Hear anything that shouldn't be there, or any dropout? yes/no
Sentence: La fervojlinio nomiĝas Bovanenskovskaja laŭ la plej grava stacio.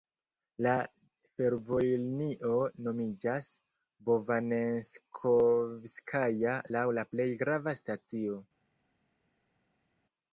no